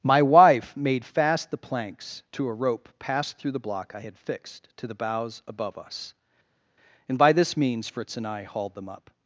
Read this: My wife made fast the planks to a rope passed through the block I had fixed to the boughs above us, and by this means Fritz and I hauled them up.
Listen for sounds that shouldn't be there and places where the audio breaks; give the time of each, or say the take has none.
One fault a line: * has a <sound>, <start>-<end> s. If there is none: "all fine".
all fine